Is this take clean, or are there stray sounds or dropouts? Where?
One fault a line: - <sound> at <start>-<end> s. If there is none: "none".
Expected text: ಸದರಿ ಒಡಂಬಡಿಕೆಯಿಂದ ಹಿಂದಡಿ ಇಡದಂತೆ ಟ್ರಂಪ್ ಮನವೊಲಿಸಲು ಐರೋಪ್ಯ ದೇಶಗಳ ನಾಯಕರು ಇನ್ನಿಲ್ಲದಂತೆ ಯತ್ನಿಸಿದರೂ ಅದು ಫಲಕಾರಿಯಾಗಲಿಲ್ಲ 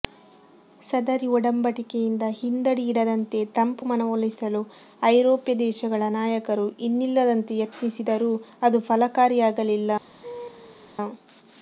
- laugh at 10.2-10.9 s